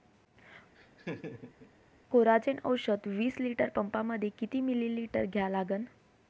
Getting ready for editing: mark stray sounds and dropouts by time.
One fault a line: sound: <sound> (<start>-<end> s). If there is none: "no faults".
sound: laugh (0.7-1.7 s)